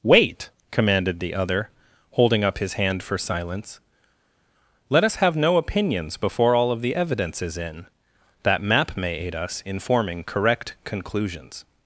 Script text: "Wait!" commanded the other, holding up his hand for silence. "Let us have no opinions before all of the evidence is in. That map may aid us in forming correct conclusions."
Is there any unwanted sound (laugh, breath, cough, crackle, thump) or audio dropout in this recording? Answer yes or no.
no